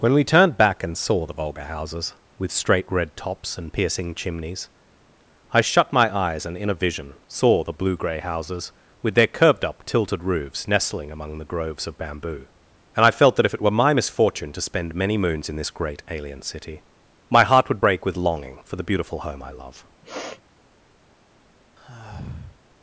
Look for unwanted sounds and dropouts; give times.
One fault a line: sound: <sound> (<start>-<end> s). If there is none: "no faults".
sound: sniff (20.0-20.4 s)
sound: sigh (21.8-22.6 s)